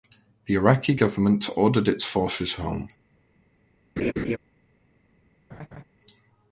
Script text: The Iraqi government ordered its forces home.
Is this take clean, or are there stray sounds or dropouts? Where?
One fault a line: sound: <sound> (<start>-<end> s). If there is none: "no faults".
sound: laugh (4.0-4.4 s)
sound: laugh (5.5-5.8 s)